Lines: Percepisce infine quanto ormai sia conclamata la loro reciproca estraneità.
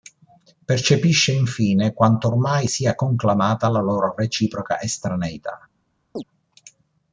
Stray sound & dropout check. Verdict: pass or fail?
fail